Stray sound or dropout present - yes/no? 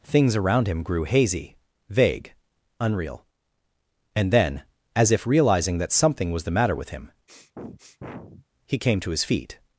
yes